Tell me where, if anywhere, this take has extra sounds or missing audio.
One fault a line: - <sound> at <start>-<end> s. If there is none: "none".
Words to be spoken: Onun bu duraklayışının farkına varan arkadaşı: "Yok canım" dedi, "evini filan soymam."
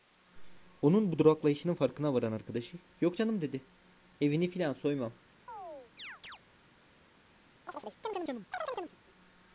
- chirp at 5.5-6.4 s
- chirp at 7.7-9.0 s